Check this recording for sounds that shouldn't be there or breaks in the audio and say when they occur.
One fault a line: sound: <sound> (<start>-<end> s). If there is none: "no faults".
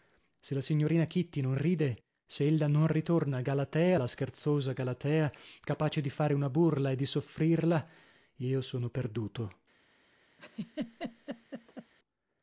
sound: laugh (10.4-11.9 s)